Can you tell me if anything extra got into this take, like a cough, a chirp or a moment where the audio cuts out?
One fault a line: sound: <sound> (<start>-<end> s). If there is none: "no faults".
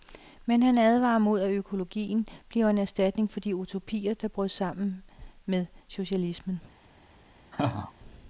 sound: laugh (7.5-7.9 s)